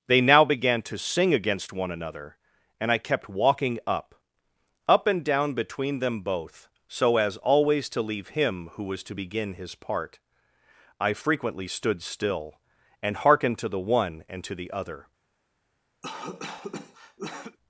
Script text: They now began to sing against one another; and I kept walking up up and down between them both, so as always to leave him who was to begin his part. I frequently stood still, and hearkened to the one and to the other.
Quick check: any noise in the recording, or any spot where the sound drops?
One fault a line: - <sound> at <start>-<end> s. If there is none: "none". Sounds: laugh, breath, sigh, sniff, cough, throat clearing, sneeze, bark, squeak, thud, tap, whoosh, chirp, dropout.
- cough at 16.0-17.6 s